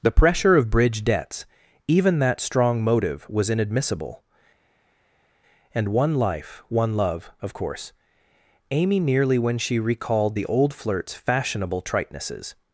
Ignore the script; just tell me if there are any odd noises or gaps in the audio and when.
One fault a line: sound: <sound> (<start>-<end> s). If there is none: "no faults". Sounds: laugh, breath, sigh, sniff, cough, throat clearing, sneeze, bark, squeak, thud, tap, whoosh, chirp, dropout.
no faults